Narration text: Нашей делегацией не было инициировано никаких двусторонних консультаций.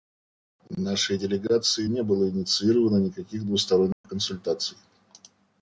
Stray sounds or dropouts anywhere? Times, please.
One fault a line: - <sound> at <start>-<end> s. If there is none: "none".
- dropout at 3.9-4.0 s